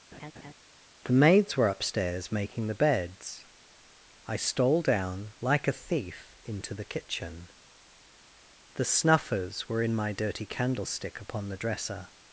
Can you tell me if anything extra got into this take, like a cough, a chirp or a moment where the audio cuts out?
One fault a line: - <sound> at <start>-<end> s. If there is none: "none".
- laugh at 0.1-0.5 s